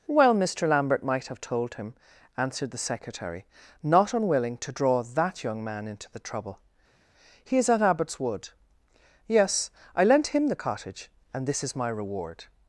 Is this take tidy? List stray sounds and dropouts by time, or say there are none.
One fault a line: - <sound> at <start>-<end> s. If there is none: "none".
none